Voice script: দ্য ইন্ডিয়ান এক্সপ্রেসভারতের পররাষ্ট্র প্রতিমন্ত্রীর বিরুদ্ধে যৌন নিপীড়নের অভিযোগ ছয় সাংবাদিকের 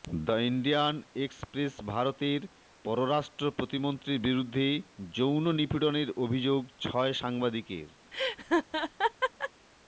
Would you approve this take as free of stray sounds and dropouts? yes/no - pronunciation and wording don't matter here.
no